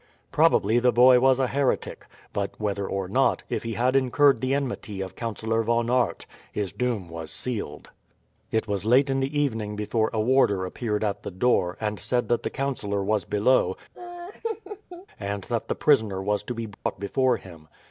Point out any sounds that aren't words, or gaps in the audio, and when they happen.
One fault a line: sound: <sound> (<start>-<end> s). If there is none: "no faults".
sound: laugh (13.9-15.1 s)
sound: dropout (16.7-16.9 s)